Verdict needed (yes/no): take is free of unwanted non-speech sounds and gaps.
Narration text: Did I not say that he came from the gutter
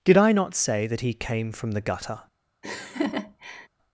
no